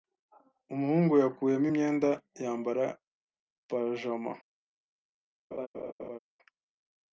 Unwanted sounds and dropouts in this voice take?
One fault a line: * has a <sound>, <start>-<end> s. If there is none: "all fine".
* has a laugh, 5.5-6.2 s